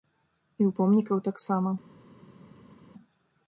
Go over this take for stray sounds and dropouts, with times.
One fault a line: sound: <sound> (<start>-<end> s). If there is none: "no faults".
no faults